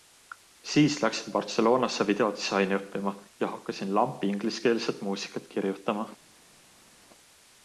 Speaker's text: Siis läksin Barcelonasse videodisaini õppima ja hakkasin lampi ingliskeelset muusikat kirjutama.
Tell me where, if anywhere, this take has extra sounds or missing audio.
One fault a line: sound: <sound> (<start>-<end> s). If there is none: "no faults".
no faults